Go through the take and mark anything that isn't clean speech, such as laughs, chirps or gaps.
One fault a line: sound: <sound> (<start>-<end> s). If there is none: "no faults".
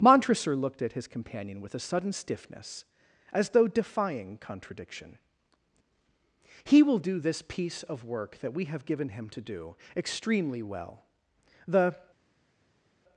no faults